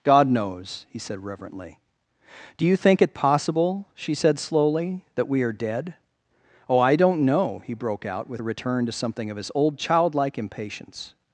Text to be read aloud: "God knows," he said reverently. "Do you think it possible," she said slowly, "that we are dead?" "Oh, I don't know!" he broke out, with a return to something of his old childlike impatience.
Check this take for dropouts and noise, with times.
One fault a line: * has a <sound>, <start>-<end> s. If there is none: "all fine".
all fine